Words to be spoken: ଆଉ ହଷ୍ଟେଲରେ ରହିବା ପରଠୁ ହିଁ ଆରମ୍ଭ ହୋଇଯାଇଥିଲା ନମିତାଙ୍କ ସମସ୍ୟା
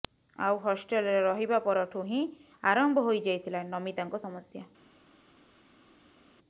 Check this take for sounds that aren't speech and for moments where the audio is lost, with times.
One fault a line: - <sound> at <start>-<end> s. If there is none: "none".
none